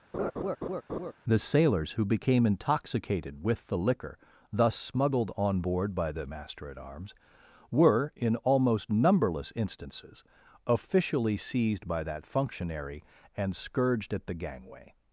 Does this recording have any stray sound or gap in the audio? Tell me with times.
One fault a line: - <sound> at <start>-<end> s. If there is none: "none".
- laugh at 0.1-1.1 s